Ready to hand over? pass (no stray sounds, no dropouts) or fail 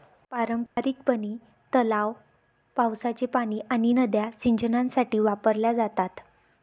fail